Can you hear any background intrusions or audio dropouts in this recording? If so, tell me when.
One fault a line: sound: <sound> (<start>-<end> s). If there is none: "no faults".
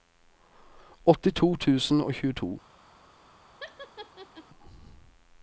sound: laugh (3.6-4.5 s)